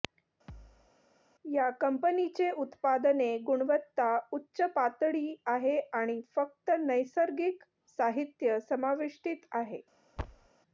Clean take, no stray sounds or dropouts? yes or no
no